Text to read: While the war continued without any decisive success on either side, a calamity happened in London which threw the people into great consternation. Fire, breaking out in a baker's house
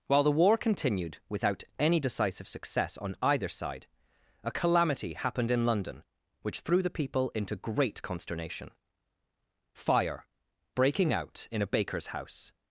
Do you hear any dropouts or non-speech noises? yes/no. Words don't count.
no